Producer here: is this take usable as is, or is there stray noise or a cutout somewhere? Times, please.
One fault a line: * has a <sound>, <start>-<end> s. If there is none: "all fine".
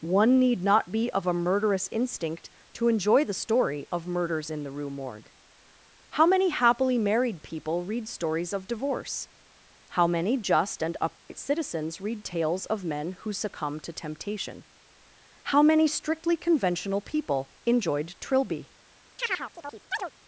* has a dropout, 11.2-11.3 s
* has a chirp, 19.2-20.1 s